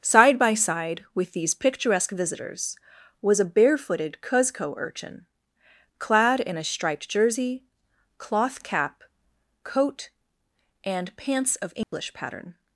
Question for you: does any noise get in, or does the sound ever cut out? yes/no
yes